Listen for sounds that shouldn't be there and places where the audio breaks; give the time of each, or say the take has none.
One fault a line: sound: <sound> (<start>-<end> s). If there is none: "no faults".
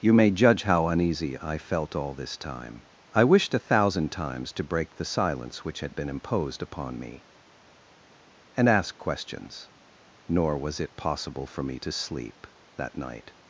no faults